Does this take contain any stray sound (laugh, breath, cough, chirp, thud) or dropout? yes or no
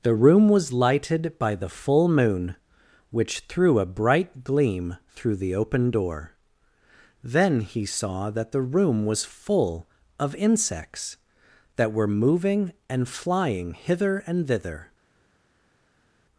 no